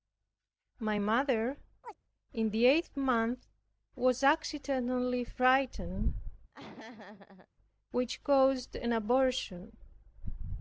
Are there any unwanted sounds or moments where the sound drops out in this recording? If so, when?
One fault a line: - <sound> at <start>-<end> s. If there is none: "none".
- chirp at 1.8-2.0 s
- laugh at 6.5-7.5 s